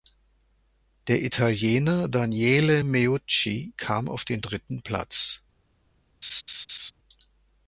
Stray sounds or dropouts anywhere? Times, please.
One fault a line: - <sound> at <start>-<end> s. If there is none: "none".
- laugh at 6.2-6.9 s